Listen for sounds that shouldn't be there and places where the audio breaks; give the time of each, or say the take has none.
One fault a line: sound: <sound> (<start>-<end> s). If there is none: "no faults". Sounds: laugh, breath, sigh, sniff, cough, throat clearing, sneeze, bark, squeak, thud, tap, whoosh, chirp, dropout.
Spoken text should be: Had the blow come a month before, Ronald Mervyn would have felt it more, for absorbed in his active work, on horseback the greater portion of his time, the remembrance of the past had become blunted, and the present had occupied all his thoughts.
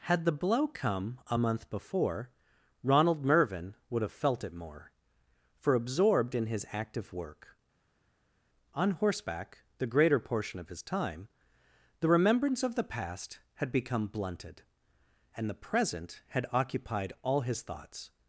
no faults